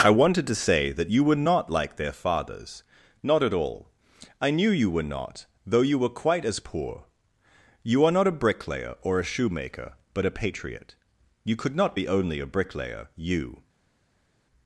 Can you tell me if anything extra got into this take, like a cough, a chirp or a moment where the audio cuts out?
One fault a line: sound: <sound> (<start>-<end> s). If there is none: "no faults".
no faults